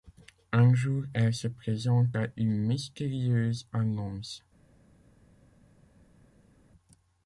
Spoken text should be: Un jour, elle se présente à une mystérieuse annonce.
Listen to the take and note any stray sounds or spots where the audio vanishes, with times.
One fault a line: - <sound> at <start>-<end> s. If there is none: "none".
none